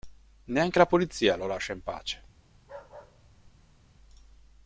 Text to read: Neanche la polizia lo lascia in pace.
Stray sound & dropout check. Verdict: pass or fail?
fail